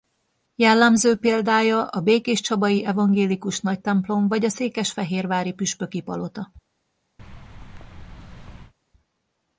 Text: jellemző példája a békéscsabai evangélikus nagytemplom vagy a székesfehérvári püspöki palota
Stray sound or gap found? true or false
true